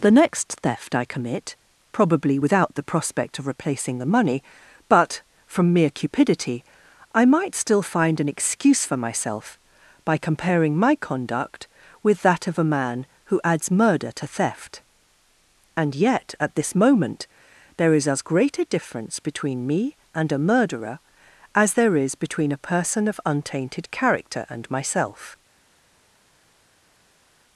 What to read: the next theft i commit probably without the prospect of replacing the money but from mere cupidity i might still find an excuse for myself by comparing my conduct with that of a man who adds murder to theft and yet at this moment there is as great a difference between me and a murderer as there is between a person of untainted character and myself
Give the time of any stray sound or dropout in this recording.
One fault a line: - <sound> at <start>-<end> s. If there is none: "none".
none